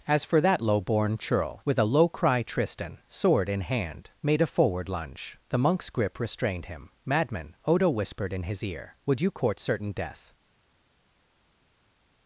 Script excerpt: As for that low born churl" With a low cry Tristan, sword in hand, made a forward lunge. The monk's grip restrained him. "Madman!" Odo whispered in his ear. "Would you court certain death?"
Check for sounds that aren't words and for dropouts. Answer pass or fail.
pass